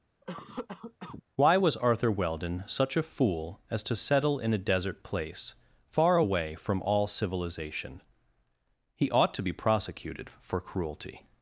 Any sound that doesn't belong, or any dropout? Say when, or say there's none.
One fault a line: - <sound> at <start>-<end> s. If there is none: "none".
- cough at 0.2-1.2 s